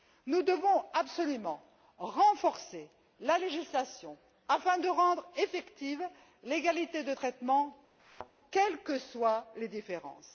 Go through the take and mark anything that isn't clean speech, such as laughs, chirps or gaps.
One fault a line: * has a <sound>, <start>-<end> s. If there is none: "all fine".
* has a thud, 8.0-8.3 s